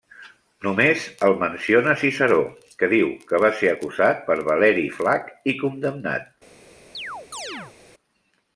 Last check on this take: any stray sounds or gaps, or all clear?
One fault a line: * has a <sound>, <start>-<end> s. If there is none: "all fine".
* has a chirp, 6.9-7.7 s